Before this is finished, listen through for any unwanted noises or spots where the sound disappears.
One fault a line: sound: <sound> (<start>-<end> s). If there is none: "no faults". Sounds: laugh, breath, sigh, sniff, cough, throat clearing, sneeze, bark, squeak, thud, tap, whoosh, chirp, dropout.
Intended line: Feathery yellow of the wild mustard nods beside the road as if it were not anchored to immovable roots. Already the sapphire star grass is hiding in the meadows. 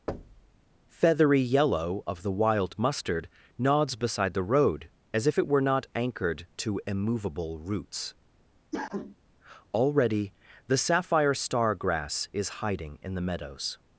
sound: thud (0.1-0.6 s)
sound: cough (8.7-9.2 s)